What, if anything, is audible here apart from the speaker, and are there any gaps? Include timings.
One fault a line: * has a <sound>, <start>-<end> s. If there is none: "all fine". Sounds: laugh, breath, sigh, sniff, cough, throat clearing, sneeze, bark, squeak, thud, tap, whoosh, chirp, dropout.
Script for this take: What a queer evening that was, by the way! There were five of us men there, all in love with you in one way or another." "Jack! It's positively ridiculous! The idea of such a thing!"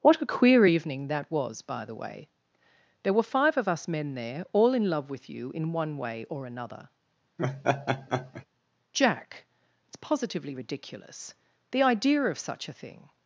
* has a laugh, 7.4-8.5 s